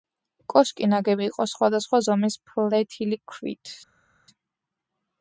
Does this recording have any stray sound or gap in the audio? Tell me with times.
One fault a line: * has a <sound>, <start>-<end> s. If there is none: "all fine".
all fine